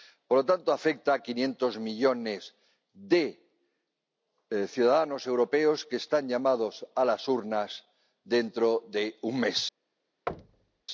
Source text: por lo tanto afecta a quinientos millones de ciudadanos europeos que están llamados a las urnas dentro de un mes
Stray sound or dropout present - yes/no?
yes